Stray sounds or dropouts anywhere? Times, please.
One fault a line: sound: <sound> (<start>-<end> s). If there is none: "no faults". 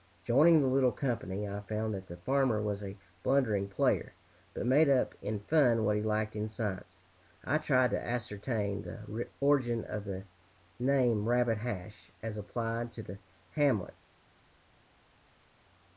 no faults